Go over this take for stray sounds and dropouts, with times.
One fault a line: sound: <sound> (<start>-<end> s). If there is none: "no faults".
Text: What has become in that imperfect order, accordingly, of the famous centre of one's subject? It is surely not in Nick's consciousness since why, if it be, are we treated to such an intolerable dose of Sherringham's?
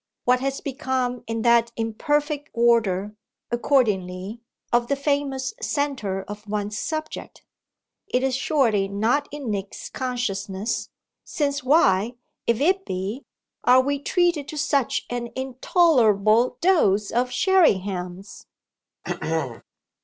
sound: throat clearing (19.0-19.6 s)